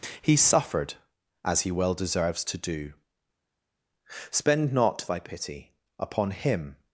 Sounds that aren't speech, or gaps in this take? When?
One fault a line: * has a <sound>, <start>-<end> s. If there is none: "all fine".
all fine